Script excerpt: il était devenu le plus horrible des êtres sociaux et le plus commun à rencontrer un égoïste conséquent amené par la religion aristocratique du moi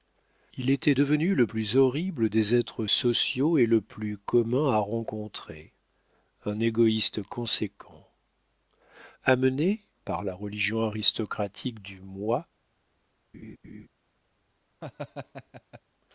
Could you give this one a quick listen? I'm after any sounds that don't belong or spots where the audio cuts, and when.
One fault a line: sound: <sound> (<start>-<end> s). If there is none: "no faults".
sound: laugh (13.3-13.9 s)
sound: laugh (14.8-15.8 s)